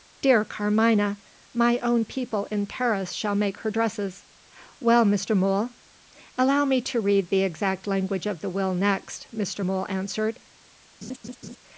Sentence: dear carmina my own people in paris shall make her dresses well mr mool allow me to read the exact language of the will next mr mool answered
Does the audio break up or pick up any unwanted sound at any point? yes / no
yes